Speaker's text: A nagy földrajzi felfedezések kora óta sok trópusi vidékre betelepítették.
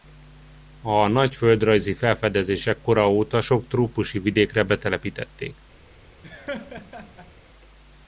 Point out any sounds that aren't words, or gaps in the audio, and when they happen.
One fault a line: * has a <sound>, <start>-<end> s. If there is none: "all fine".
* has a laugh, 6.2-7.3 s